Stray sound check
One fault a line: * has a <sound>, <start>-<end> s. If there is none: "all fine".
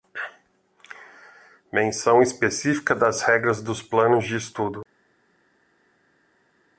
all fine